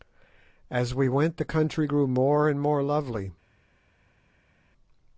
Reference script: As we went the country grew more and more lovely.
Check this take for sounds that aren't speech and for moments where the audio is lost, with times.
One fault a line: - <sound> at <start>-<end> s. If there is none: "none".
none